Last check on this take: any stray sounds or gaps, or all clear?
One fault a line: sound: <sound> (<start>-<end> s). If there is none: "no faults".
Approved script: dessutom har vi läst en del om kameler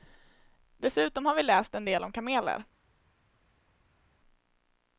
no faults